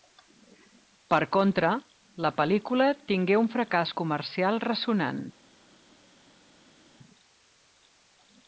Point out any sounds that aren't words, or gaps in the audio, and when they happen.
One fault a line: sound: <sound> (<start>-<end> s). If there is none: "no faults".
no faults